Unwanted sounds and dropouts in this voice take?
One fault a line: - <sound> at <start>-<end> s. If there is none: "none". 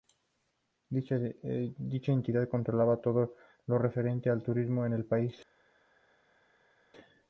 none